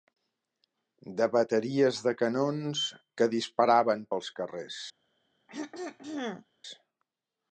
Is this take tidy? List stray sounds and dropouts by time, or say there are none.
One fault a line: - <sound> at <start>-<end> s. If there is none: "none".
- throat clearing at 5.5-6.5 s